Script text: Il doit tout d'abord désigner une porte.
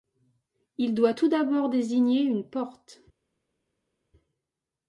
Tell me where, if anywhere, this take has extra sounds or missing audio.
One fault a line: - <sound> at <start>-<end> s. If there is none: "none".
none